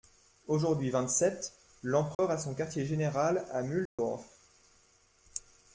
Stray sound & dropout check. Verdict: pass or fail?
fail